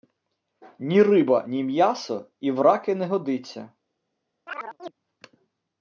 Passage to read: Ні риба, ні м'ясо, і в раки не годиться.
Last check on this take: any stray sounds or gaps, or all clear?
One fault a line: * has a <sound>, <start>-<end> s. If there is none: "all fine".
* has a chirp, 4.5-4.9 s